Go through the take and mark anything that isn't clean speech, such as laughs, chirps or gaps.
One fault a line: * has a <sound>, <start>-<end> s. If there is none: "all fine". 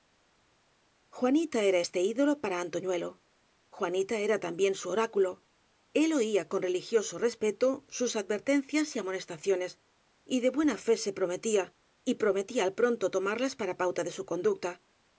all fine